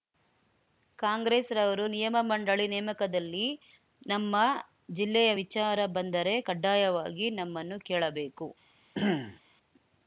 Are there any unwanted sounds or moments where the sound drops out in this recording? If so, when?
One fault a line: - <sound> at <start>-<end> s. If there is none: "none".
- throat clearing at 8.9-9.4 s